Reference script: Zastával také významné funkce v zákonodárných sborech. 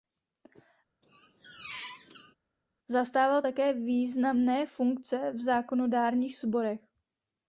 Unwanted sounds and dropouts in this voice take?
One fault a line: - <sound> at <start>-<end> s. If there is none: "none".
- squeak at 1.0-2.4 s